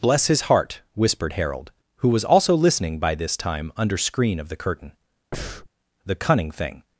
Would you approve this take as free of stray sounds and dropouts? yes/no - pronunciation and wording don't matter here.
no